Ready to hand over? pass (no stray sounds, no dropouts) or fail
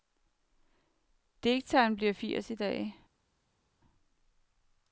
pass